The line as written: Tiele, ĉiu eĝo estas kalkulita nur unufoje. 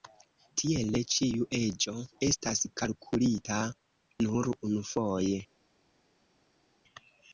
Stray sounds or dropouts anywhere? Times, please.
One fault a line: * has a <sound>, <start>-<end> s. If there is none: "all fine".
all fine